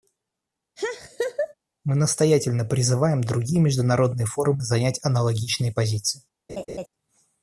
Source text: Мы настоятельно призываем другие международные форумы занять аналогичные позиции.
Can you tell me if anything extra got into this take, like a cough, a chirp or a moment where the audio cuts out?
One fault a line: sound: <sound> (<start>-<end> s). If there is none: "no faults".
sound: laugh (0.8-1.5 s)
sound: laugh (6.5-6.9 s)